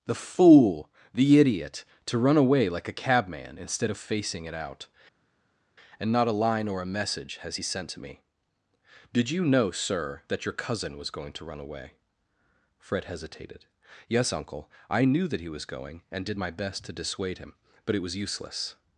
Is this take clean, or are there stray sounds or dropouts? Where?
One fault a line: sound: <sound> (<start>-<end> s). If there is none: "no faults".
no faults